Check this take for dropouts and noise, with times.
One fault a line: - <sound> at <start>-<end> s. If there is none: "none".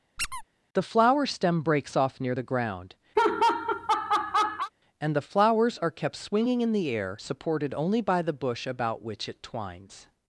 - squeak at 0.2-0.4 s
- laugh at 3.2-4.7 s